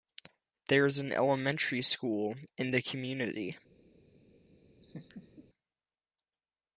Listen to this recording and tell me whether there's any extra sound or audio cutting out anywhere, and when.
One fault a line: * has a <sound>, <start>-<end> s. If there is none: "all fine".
* has a laugh, 4.8-5.5 s